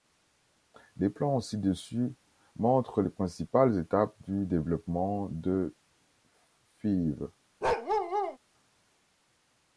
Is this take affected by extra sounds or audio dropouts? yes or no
yes